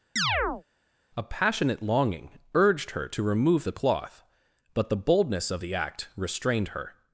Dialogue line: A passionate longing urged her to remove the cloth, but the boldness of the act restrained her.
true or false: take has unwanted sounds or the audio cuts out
true